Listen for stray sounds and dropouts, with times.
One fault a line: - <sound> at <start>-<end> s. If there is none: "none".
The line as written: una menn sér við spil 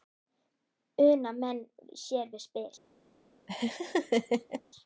- laugh at 3.5-4.6 s